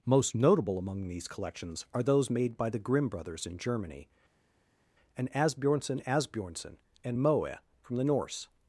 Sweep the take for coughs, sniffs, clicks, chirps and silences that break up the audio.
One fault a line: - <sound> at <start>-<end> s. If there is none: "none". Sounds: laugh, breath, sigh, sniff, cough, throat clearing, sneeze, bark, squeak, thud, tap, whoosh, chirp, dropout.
none